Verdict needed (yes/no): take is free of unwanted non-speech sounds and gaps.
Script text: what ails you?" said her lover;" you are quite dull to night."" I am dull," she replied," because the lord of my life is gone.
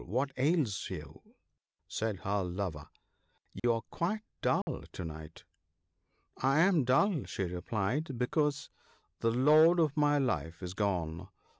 no